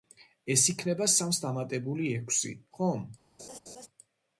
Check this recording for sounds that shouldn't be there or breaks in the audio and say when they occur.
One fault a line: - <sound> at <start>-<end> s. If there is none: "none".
- laugh at 3.4-3.9 s